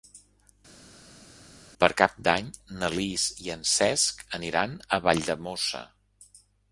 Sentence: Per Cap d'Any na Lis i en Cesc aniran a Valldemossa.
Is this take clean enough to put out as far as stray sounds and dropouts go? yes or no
yes